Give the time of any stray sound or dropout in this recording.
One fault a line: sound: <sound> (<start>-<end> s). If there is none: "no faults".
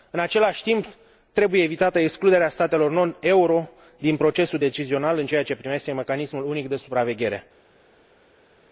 no faults